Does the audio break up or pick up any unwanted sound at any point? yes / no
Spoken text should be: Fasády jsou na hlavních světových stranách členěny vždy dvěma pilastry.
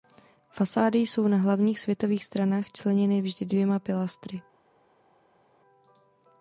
no